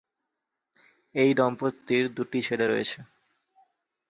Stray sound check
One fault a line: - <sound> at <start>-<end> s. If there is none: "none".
none